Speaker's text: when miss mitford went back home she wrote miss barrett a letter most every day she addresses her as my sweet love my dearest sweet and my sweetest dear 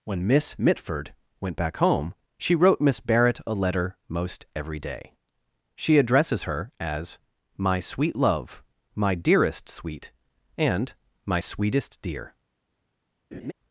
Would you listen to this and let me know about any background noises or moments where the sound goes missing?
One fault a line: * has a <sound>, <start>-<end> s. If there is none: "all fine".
* has a laugh, 13.3-13.5 s